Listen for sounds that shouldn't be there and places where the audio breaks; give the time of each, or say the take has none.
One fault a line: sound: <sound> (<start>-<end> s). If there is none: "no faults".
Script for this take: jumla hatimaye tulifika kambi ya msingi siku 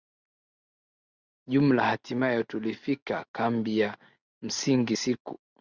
no faults